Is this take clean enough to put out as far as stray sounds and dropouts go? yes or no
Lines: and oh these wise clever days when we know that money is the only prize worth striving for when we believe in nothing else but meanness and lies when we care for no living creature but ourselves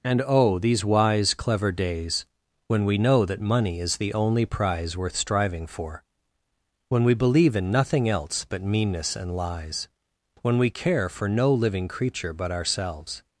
yes